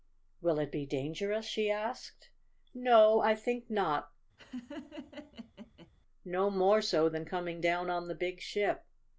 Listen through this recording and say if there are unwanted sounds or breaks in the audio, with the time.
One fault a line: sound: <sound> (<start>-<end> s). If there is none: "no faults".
sound: laugh (4.4-5.9 s)